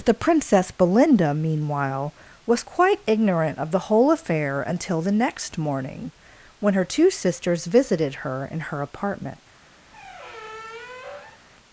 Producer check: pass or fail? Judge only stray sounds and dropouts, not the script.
fail